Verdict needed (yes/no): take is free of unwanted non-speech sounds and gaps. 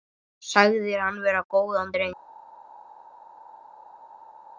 yes